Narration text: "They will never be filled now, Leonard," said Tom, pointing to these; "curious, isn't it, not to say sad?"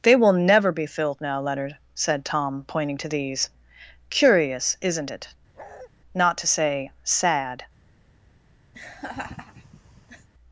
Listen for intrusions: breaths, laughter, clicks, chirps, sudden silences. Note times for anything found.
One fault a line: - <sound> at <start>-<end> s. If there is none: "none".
- bark at 5.6-5.9 s
- laugh at 8.7-10.3 s